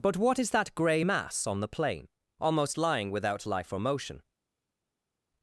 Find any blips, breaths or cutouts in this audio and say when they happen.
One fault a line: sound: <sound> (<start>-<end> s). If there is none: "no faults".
no faults